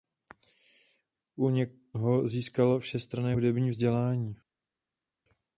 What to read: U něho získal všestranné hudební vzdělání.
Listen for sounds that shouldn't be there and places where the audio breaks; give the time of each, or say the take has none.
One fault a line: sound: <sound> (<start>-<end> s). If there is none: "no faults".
no faults